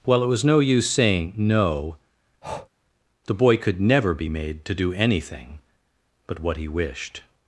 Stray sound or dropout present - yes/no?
yes